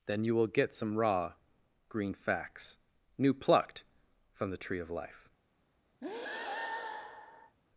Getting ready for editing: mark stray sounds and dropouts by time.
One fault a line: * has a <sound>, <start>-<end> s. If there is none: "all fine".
* has a breath, 6.0-7.6 s